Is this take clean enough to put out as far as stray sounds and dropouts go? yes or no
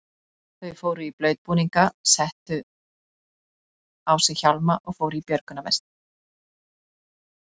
yes